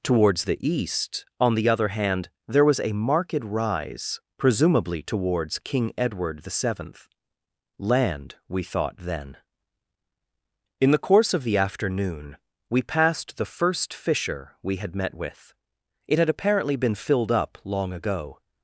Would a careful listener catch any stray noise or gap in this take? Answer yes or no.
no